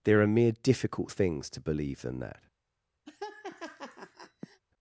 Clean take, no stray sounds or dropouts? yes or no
no